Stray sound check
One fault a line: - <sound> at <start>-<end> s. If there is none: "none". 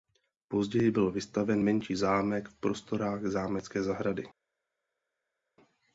none